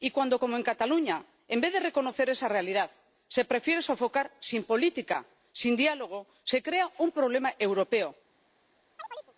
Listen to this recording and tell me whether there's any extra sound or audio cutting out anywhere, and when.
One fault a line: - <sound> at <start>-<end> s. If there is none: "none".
- chirp at 9.0-9.3 s